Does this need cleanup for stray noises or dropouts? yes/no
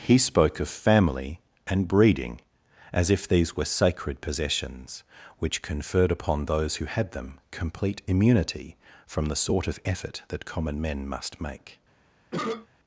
yes